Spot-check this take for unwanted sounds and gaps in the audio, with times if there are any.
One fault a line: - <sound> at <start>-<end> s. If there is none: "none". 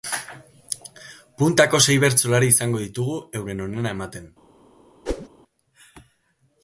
- whoosh at 5.1-5.3 s